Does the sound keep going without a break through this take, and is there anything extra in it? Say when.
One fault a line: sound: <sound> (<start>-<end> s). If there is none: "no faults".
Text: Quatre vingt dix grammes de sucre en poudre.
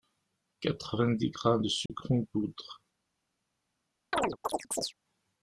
sound: dropout (1.9-1.9 s)
sound: chirp (4.1-4.9 s)